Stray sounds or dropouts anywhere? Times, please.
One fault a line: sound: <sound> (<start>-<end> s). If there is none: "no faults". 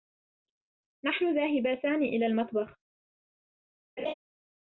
sound: laugh (4.0-4.1 s)